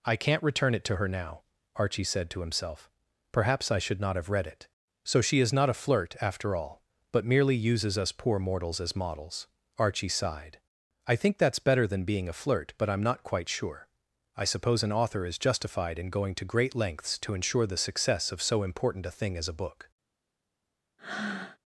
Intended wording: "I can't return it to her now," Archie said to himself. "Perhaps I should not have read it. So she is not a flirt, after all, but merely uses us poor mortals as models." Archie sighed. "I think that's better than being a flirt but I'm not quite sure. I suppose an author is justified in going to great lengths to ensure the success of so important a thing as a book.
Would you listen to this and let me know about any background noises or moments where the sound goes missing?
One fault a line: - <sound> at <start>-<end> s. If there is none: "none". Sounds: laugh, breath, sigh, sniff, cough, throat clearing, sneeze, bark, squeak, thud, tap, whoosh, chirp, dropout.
- breath at 21.0-21.6 s